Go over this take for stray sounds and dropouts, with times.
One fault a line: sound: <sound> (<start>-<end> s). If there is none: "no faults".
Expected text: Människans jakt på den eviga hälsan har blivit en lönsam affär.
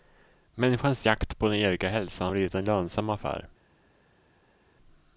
no faults